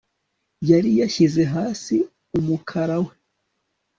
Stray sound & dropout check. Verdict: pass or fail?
pass